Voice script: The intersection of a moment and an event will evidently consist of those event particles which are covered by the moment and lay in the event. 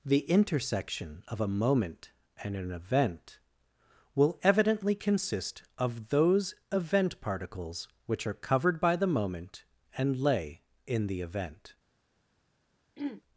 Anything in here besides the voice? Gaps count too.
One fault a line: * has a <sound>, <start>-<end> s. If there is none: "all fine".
* has a throat clearing, 13.0-13.2 s